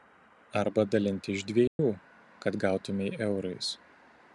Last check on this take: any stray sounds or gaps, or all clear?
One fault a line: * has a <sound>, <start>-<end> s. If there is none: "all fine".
* has a dropout, 1.7-1.8 s